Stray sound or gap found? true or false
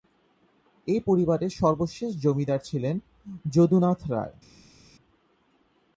false